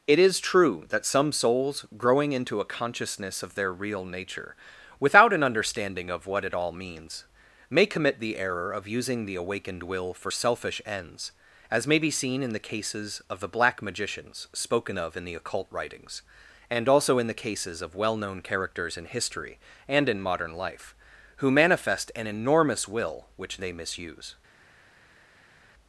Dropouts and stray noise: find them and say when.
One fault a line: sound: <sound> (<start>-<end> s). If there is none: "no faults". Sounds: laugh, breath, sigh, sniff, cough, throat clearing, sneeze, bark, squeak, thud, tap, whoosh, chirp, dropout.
no faults